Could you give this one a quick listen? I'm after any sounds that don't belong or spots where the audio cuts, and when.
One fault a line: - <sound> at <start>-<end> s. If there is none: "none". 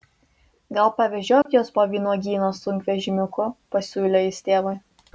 - dropout at 1.4-1.5 s